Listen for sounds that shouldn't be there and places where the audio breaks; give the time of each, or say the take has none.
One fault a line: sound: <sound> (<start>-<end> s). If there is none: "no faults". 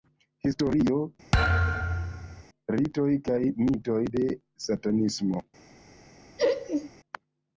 sound: thud (1.3-2.4 s)
sound: laugh (6.4-6.9 s)